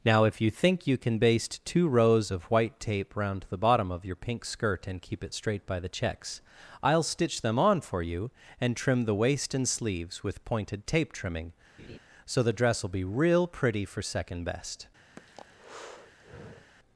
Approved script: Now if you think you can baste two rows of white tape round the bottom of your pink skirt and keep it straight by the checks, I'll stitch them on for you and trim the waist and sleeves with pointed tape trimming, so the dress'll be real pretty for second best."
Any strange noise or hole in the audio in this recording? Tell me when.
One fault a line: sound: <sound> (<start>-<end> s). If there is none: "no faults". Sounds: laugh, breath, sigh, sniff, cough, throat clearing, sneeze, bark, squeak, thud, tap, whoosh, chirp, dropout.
sound: laugh (11.8-12.0 s)
sound: breath (15.2-16.7 s)